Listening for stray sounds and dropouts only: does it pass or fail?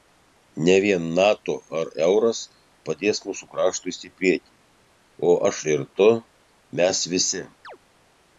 fail